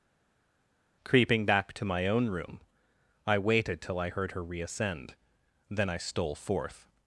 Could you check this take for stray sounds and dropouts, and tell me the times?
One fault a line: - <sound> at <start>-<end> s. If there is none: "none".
none